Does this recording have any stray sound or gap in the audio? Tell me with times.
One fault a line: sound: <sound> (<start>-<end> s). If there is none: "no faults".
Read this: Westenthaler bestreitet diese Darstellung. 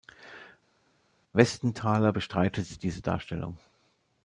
no faults